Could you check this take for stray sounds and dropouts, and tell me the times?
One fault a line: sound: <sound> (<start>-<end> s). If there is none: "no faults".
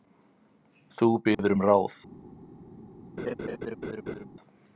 sound: dropout (1.3-1.4 s)
sound: laugh (3.2-4.3 s)